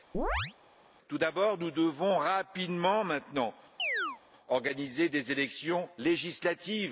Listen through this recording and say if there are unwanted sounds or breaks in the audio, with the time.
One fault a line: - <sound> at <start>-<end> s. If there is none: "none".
- chirp at 0.1-0.5 s
- chirp at 3.8-4.2 s